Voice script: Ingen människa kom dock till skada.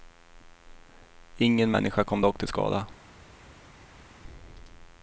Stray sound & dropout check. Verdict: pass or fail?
pass